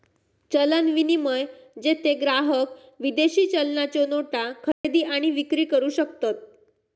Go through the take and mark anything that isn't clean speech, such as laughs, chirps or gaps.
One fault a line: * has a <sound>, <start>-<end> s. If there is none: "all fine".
* has a dropout, 4.7-4.8 s